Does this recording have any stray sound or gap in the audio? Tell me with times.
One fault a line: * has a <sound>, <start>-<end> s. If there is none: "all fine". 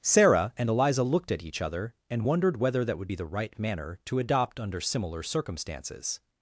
all fine